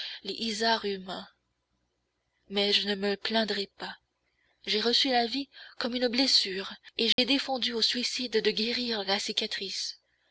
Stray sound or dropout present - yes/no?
yes